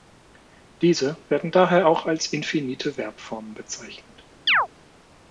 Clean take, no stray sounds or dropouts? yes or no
no